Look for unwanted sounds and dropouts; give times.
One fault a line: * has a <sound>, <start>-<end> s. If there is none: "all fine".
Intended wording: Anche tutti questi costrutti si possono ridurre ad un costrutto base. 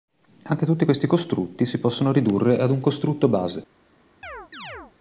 * has a chirp, 4.2-4.9 s